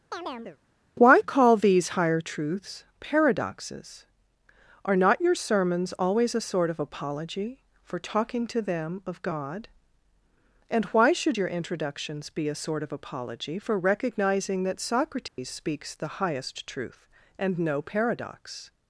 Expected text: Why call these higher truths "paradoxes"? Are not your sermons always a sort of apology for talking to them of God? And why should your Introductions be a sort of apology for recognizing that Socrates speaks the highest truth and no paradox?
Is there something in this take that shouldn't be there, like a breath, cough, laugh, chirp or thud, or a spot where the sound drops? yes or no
yes